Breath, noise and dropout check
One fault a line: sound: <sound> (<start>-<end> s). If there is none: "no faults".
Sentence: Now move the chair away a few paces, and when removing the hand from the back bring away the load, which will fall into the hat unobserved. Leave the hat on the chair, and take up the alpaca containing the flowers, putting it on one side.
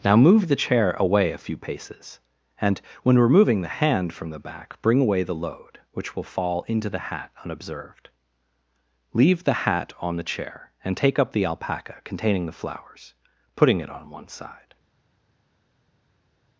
no faults